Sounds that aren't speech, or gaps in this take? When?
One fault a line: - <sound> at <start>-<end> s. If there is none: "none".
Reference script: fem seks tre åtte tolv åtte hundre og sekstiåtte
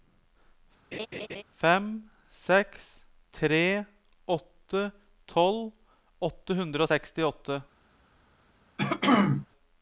- laugh at 0.9-1.4 s
- throat clearing at 8.8-9.5 s